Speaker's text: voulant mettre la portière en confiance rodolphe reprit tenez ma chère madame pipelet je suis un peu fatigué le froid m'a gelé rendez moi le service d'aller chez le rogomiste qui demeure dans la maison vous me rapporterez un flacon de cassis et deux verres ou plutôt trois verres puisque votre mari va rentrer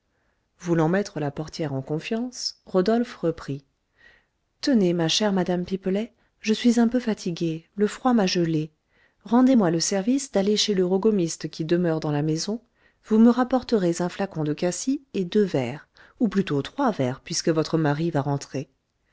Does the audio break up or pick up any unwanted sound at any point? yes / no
no